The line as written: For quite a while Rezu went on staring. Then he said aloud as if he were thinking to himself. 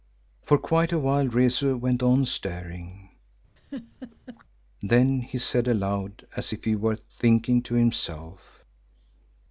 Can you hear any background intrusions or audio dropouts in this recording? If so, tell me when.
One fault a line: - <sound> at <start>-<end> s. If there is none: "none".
- laugh at 3.6-4.4 s